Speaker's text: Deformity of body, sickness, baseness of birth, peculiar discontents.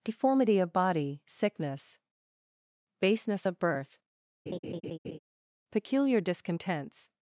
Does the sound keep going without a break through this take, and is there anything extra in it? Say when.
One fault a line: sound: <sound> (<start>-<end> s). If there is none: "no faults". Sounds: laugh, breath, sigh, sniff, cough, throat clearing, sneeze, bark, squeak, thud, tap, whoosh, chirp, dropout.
sound: laugh (4.5-5.2 s)